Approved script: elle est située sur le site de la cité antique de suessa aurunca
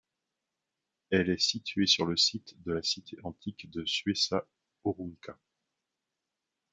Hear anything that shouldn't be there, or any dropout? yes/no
no